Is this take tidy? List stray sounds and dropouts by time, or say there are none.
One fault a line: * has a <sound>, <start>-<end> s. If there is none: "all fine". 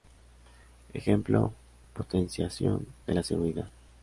all fine